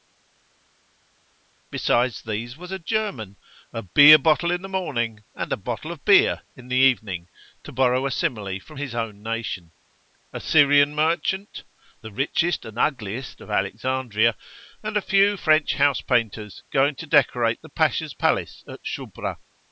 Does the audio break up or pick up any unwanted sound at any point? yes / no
no